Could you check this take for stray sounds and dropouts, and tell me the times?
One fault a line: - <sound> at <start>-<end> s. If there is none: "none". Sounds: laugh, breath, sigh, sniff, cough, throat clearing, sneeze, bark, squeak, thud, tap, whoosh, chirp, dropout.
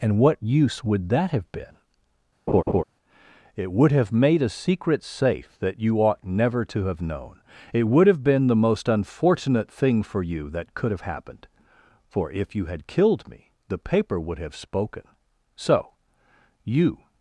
- laugh at 2.5-2.8 s